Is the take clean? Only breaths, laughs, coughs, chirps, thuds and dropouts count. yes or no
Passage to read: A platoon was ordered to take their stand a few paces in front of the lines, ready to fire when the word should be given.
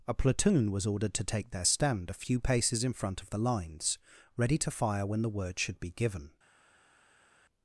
yes